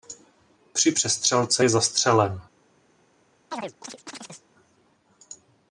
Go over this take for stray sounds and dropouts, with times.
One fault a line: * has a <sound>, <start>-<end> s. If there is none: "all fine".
* has a chirp, 3.5-4.5 s